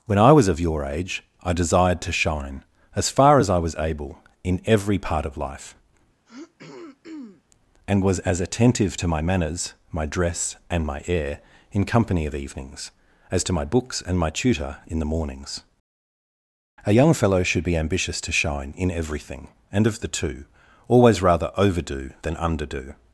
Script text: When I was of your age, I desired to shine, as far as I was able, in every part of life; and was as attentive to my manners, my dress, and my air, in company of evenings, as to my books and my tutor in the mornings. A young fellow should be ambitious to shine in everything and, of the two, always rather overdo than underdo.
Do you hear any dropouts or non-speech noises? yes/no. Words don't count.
yes